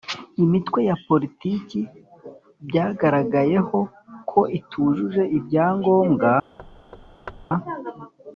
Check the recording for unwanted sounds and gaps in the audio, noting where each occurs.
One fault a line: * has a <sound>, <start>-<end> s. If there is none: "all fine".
* has a thud, 6.6-7.5 s